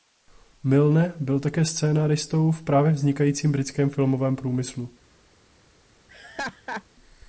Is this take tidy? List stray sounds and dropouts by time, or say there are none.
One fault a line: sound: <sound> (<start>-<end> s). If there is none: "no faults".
sound: laugh (6.1-6.8 s)